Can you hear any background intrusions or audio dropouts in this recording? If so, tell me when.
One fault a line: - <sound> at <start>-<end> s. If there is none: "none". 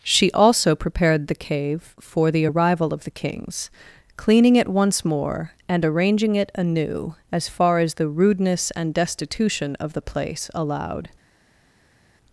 none